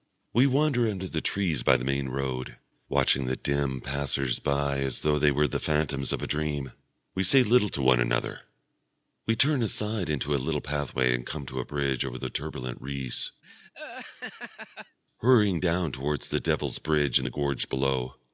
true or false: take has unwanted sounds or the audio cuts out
true